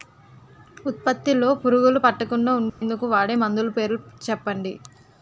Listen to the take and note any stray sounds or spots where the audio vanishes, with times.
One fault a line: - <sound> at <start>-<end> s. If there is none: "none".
- dropout at 2.7-2.8 s